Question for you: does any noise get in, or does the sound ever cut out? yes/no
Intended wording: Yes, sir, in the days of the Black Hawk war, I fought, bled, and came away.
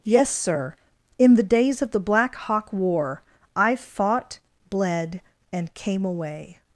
no